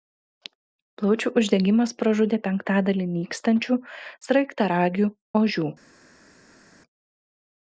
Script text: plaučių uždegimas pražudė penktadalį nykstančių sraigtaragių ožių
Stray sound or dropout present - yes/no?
no